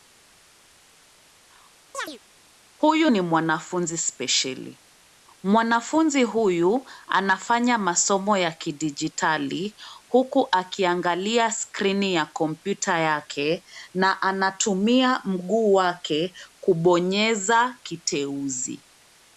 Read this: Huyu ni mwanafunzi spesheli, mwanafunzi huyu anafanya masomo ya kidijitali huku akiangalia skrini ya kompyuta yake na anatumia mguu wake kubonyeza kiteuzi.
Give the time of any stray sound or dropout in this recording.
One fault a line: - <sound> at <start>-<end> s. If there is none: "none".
- chirp at 1.9-2.2 s